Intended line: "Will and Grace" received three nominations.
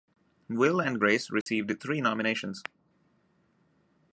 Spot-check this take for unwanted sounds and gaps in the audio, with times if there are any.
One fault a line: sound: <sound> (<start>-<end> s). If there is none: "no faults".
sound: dropout (1.4-1.5 s)